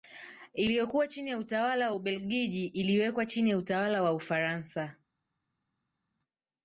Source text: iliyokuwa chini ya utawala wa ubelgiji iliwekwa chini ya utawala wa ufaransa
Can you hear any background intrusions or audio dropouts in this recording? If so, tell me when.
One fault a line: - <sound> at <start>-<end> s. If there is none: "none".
none